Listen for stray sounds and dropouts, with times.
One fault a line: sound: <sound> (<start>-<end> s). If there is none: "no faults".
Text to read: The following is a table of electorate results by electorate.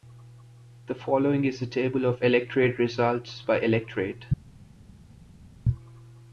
no faults